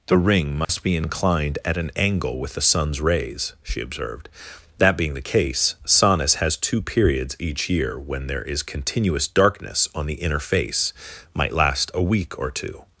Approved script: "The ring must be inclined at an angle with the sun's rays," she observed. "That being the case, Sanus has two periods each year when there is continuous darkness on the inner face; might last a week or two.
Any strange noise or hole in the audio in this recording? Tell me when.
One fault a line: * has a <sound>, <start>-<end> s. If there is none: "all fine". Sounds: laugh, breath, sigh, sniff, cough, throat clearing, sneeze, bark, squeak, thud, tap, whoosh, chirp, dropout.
* has a dropout, 0.6-0.7 s